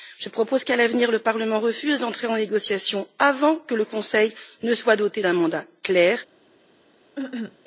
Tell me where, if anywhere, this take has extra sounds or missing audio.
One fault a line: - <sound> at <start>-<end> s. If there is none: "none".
- cough at 7.2-7.6 s